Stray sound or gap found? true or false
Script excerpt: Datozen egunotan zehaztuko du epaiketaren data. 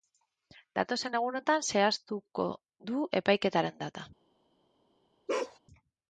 true